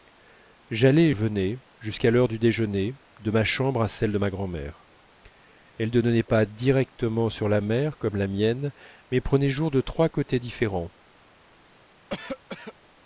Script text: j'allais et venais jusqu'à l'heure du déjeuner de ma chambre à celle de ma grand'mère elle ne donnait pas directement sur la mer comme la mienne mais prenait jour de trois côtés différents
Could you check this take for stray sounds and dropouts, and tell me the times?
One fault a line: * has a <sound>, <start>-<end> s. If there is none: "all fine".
* has a cough, 12.1-12.7 s